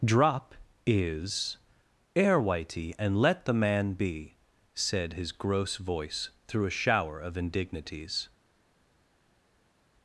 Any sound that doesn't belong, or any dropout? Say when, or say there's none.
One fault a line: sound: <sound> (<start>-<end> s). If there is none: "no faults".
no faults